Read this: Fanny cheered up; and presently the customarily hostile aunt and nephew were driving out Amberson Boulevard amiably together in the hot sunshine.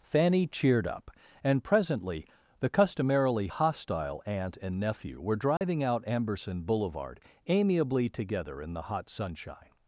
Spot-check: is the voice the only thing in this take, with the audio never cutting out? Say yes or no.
no